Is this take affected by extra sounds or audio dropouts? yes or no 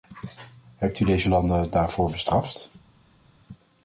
no